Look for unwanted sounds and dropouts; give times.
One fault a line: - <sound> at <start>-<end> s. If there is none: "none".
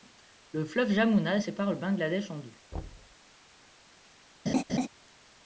- thud at 2.7-3.2 s
- laugh at 4.5-4.9 s